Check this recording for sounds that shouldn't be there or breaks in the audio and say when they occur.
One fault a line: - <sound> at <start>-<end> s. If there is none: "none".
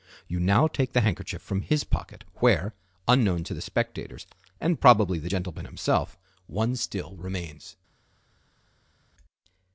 none